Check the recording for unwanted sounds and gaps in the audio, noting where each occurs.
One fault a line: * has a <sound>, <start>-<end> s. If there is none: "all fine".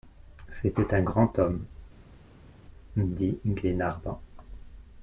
all fine